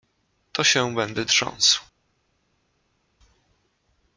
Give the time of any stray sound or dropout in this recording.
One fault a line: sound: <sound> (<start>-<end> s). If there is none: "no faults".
no faults